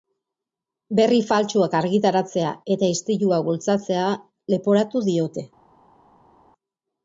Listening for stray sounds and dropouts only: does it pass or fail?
pass